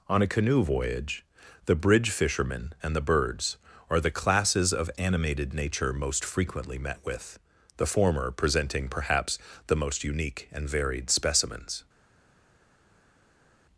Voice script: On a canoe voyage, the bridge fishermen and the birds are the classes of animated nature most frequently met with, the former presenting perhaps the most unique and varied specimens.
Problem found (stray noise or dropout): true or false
false